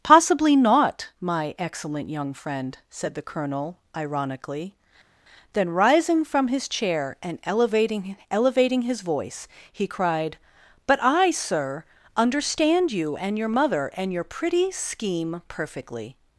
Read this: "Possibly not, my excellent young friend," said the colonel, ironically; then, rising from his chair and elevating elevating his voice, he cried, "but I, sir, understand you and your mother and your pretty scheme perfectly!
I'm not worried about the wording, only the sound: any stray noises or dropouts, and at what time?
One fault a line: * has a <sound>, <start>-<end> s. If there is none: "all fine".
all fine